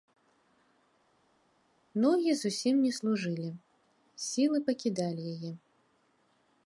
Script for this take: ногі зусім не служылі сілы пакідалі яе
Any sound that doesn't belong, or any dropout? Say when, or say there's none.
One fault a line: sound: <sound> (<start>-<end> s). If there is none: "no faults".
no faults